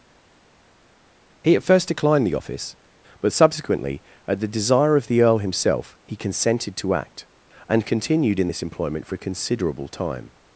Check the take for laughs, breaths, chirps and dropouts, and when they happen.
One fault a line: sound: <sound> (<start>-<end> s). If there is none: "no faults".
no faults